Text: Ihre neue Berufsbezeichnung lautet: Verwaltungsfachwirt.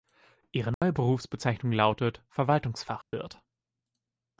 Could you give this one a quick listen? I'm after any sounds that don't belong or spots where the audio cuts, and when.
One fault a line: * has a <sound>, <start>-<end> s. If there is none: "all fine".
* has a dropout, 0.7-0.8 s
* has a dropout, 3.0-3.1 s